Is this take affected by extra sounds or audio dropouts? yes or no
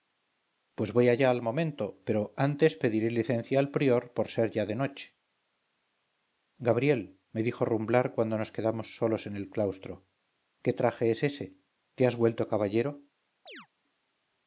yes